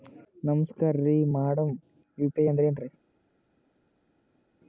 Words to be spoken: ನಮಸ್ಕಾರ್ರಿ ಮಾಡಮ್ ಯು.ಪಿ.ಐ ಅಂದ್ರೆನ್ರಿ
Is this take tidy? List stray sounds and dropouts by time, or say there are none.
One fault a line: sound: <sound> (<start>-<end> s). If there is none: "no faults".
no faults